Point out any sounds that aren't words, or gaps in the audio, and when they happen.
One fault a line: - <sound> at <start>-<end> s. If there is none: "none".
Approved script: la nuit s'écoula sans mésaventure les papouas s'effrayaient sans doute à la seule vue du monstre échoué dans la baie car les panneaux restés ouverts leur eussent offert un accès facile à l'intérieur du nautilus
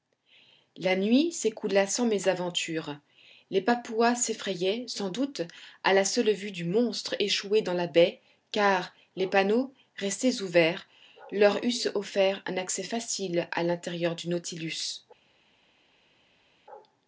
none